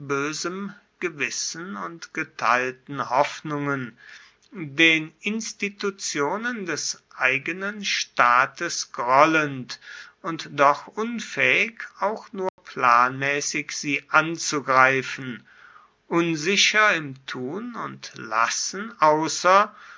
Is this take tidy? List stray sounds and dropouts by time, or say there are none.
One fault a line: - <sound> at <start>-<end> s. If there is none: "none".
- dropout at 12.5-12.6 s